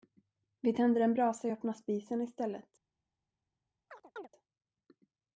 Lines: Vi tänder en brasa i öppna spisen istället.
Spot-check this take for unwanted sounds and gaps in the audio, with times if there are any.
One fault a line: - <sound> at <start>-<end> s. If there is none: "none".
- chirp at 3.9-4.3 s